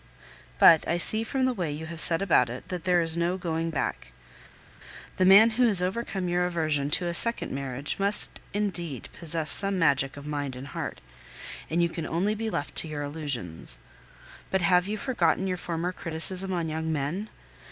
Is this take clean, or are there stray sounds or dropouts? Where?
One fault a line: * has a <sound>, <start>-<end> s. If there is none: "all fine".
all fine